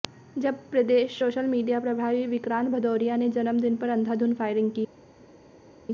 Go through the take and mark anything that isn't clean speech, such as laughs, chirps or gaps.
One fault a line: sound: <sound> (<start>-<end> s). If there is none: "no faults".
no faults